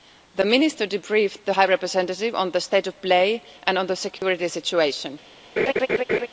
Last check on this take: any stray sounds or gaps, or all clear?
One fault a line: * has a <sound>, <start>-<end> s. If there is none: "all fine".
* has a dropout, 4.2-4.2 s
* has a laugh, 5.6-6.3 s